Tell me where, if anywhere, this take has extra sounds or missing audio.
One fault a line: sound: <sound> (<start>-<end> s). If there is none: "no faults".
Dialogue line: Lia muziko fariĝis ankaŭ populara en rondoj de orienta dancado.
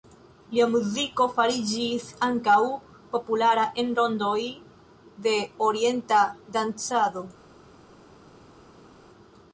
no faults